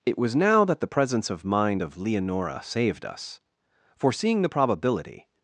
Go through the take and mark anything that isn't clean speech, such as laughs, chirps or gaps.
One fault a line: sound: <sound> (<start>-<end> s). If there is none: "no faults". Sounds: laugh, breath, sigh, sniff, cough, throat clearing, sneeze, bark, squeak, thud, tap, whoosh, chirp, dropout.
no faults